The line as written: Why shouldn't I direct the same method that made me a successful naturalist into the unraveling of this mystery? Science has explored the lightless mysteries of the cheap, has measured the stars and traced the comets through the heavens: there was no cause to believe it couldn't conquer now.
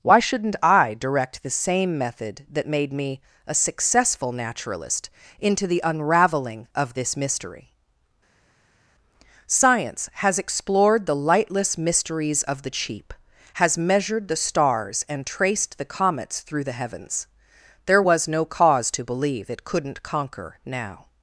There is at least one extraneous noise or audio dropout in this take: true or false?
false